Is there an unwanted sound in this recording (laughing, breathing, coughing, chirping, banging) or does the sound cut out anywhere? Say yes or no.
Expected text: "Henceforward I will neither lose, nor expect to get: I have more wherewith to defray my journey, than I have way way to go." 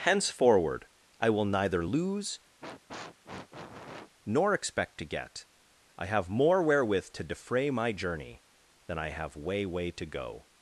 yes